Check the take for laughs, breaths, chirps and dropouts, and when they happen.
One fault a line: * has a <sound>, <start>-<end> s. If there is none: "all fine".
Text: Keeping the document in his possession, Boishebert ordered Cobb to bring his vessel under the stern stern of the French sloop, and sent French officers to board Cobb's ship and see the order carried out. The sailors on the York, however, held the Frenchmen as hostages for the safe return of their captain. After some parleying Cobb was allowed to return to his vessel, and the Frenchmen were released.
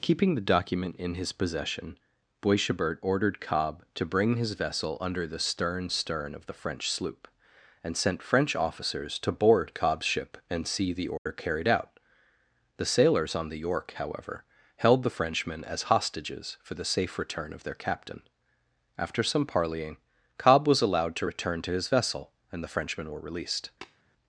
* has a dropout, 11.2-11.3 s
* has a tap, 23.8-24.0 s